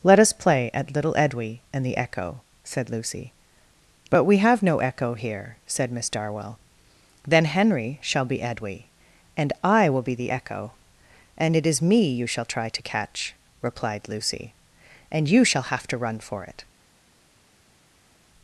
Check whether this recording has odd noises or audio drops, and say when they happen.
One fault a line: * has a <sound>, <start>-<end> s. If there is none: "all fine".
all fine